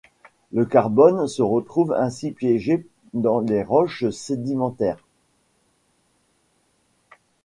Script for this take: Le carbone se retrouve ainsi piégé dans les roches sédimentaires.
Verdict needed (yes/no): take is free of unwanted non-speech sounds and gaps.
yes